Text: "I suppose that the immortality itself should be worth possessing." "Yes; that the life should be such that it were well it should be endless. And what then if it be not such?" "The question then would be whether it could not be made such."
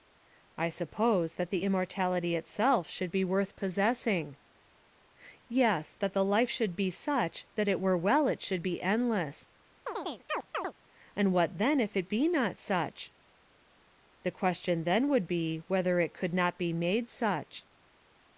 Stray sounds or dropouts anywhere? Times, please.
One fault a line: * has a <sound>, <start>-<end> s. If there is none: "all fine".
* has a chirp, 9.9-10.7 s